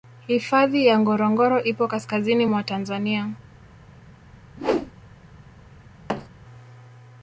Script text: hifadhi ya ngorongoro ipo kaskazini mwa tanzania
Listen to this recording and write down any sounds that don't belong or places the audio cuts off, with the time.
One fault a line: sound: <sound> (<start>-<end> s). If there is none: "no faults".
sound: whoosh (4.6-4.9 s)
sound: thud (6.1-6.3 s)